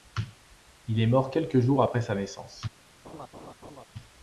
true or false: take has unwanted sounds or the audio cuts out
true